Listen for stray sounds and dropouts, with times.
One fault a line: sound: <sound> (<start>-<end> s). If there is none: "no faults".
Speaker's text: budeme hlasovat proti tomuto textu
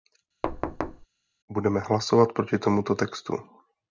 sound: thud (0.4-1.1 s)